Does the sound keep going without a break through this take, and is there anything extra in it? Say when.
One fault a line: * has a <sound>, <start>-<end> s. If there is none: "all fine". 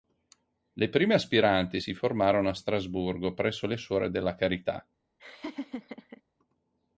* has a laugh, 5.2-6.2 s